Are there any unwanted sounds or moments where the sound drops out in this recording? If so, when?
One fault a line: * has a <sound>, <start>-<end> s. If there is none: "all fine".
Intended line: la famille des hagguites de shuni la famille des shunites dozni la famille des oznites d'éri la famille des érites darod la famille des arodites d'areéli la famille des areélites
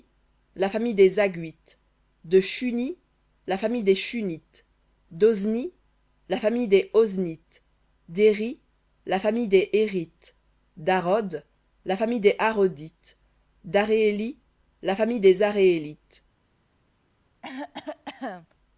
* has a cough, 17.4-18.5 s